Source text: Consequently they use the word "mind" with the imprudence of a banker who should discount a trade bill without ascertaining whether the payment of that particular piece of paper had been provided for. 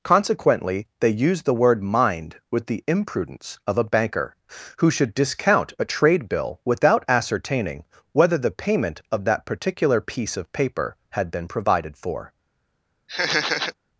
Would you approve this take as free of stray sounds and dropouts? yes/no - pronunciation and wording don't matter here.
no